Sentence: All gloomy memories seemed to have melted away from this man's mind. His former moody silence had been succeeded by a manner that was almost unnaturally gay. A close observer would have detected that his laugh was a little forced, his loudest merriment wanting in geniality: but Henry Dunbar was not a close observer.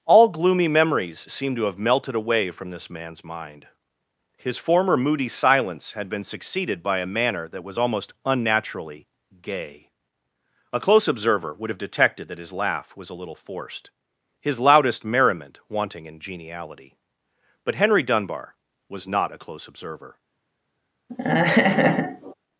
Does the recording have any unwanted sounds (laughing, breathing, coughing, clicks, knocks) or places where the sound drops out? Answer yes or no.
yes